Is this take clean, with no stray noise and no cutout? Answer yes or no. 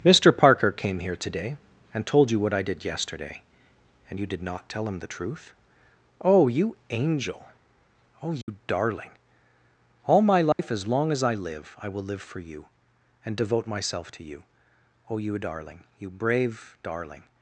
no